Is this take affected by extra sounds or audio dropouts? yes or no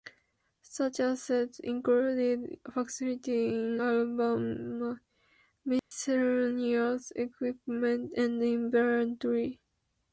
yes